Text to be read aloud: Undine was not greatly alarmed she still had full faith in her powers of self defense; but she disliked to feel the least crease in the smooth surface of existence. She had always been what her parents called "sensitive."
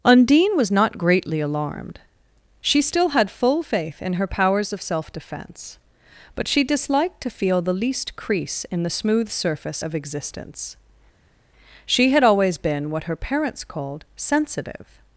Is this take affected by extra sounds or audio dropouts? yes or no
no